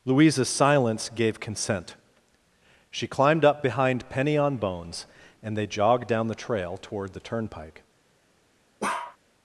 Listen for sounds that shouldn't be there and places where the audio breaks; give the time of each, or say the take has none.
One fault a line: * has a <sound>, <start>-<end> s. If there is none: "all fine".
* has a bark, 8.8-9.2 s